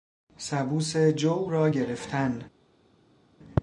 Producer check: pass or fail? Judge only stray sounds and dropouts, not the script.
pass